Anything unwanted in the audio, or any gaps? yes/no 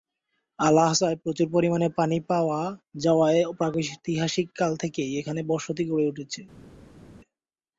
no